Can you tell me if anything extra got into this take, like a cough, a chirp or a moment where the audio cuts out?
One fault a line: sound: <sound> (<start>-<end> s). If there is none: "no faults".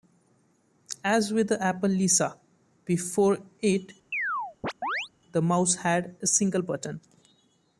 sound: chirp (4.1-5.1 s)